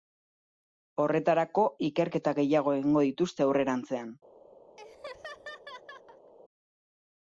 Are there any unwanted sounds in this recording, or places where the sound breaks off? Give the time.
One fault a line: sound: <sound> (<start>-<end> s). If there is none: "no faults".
sound: laugh (4.8-6.3 s)